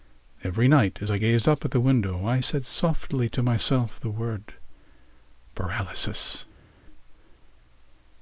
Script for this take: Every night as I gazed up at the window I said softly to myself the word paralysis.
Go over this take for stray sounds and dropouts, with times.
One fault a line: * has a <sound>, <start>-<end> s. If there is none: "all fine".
all fine